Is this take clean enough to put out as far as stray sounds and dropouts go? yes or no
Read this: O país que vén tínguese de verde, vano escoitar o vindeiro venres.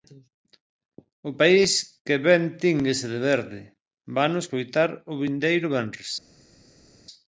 yes